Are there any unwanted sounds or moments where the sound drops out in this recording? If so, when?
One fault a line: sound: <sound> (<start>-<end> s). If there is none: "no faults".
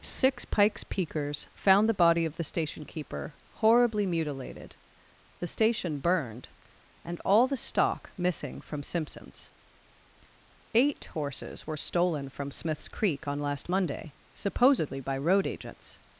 no faults